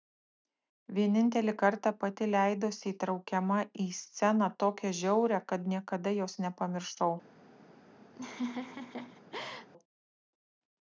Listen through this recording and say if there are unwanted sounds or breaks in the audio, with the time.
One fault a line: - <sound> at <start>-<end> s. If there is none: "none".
- laugh at 8.1-9.7 s